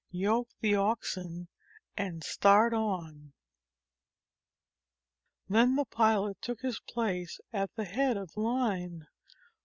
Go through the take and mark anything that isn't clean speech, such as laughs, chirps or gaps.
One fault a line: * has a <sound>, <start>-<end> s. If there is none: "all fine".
all fine